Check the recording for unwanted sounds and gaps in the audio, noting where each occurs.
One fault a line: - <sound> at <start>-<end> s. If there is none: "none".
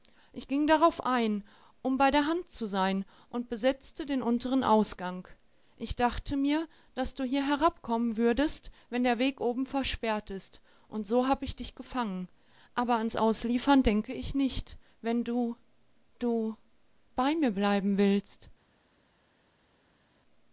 none